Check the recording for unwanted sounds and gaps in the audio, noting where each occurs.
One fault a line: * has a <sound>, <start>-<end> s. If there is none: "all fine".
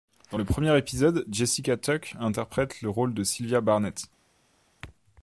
all fine